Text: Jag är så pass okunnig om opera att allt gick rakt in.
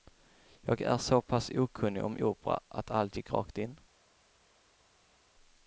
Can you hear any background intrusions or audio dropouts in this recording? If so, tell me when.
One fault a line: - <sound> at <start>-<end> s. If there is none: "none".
none